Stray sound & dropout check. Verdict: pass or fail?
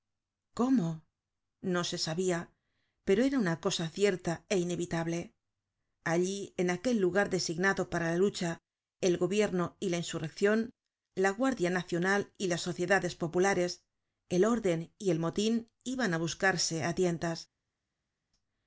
pass